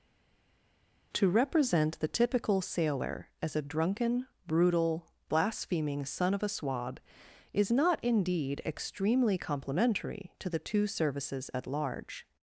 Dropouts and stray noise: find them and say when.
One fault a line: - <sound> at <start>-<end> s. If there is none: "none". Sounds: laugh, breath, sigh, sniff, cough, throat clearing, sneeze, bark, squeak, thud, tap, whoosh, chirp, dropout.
none